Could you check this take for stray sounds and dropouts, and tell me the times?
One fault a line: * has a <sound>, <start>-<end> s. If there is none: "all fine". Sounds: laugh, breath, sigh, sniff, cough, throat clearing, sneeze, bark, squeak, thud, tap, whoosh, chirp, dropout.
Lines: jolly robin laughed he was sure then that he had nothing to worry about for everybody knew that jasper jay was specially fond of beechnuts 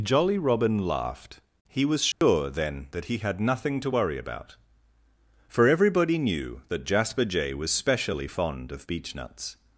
* has a dropout, 2.1-2.2 s